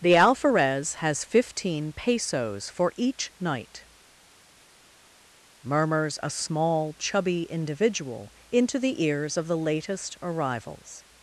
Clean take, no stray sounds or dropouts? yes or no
yes